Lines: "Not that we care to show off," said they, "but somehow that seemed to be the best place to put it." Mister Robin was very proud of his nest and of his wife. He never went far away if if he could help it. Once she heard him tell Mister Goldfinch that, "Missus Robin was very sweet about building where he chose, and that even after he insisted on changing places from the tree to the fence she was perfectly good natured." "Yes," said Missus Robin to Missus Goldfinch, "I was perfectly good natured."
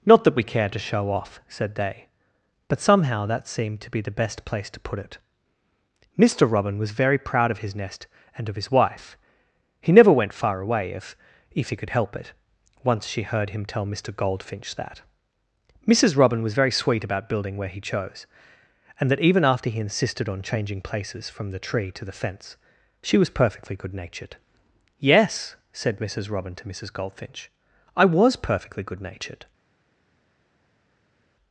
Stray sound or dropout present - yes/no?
no